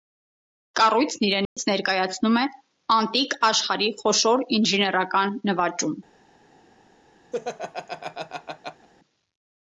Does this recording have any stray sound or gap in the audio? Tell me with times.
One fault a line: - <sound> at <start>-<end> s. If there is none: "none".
- dropout at 1.4-1.6 s
- laugh at 7.3-8.9 s